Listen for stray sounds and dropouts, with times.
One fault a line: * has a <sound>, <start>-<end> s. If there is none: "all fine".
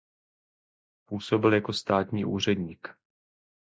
all fine